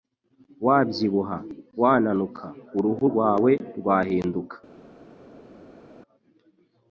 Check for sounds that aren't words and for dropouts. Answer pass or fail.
pass